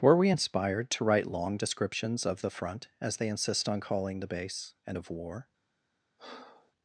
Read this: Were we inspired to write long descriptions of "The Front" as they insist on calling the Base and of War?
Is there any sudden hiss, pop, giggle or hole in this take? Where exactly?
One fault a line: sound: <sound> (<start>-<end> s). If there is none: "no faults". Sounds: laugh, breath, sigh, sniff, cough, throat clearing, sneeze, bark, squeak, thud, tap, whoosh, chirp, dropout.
sound: breath (6.2-6.7 s)